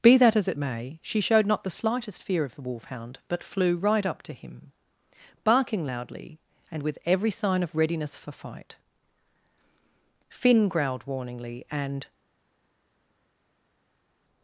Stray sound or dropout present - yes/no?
no